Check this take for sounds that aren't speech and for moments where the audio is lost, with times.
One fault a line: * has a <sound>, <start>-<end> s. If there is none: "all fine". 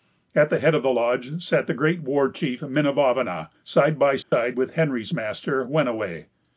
* has a dropout, 4.2-4.3 s